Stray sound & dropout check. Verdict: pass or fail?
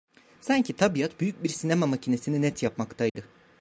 fail